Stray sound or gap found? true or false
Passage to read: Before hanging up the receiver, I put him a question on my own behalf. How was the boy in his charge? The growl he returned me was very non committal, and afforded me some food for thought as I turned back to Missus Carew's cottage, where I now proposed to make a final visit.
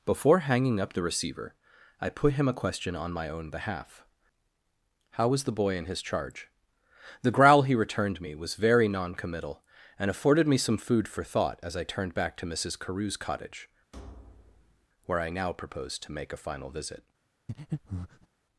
true